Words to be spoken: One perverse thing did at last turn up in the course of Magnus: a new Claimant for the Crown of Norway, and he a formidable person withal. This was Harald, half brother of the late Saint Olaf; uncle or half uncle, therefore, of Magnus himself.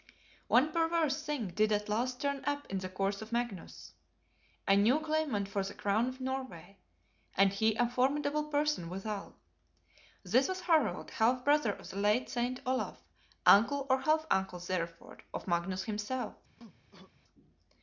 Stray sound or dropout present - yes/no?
yes